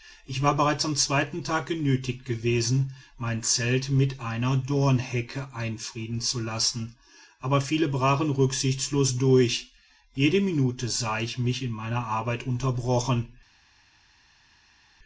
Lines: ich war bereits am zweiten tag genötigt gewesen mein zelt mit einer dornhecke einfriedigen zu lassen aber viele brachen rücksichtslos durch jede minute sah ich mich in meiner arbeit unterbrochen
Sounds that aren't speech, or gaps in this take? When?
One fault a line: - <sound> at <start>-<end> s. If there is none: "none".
none